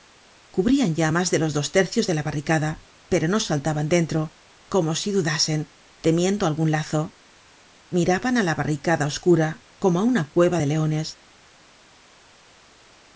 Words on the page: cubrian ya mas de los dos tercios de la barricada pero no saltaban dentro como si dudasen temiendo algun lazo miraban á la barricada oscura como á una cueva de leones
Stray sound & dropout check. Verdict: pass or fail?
pass